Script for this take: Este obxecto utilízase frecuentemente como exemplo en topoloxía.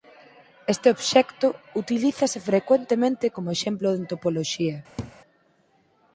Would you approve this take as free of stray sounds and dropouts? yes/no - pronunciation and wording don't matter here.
no